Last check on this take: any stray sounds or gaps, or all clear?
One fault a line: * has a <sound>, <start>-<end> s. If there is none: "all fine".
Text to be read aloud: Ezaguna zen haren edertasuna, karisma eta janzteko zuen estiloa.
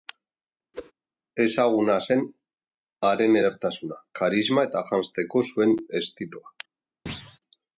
* has a whoosh, 0.7-0.9 s
* has a thud, 7.1-7.4 s